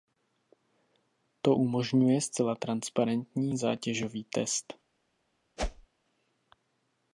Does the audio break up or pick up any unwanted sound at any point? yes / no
yes